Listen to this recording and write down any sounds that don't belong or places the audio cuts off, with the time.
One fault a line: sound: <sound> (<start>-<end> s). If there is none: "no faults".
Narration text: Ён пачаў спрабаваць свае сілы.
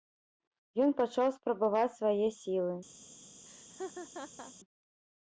sound: laugh (3.5-4.5 s)